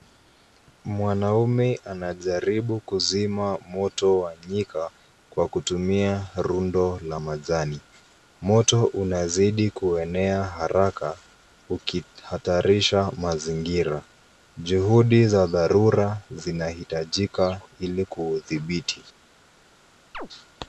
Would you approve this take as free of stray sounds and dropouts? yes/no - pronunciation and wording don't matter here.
no